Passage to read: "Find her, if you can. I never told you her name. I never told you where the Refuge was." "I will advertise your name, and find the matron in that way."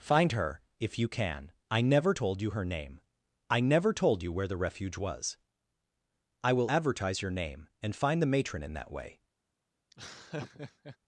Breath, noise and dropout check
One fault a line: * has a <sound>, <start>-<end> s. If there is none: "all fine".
* has a laugh, 9.9-11.0 s